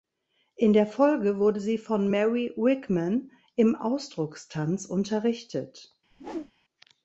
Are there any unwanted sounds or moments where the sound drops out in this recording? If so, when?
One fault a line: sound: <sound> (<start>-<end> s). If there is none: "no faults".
sound: whoosh (6.1-6.5 s)